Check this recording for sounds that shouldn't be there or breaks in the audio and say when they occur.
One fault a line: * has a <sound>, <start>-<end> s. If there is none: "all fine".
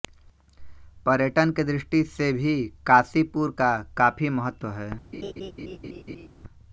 * has a laugh, 5.1-6.3 s